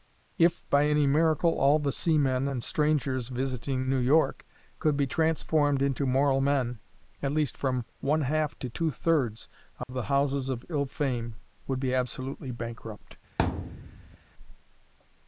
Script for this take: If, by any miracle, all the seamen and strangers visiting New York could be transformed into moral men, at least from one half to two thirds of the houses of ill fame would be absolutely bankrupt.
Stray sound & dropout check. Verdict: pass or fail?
fail